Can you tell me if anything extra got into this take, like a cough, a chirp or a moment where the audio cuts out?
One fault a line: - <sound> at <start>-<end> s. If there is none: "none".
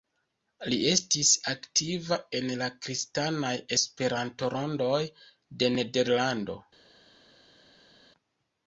none